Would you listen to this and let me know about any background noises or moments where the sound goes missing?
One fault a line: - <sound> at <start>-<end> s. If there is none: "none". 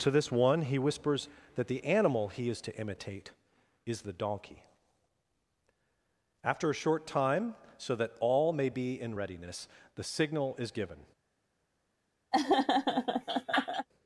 - laugh at 12.3-13.9 s